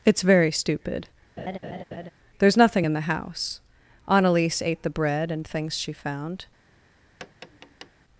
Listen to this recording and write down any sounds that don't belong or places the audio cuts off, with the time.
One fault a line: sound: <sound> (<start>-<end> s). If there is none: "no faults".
sound: laugh (1.4-2.1 s)
sound: tap (7.2-7.9 s)